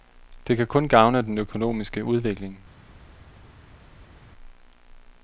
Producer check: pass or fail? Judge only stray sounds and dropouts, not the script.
pass